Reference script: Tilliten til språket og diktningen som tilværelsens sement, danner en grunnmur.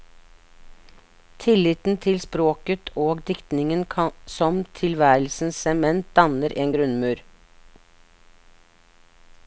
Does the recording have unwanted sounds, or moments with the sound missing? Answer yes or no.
no